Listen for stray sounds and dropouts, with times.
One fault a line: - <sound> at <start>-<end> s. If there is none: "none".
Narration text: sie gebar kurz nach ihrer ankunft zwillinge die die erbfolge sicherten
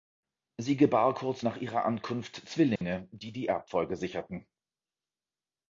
- dropout at 2.8-2.8 s